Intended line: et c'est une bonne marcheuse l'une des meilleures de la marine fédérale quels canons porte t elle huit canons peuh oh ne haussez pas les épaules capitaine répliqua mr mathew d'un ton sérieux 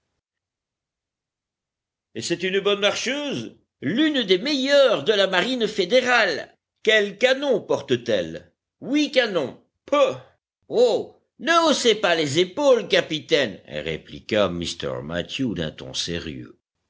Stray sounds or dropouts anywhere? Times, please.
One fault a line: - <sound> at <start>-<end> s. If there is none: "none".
none